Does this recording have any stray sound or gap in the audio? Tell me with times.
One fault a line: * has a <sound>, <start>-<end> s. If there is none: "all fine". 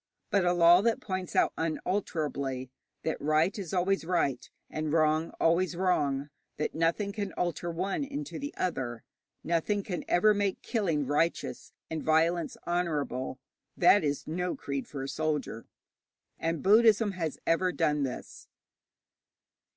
all fine